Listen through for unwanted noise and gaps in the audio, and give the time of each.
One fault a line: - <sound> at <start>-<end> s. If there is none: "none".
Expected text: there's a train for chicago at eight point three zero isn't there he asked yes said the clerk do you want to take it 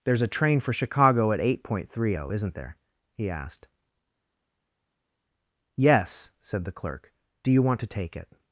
none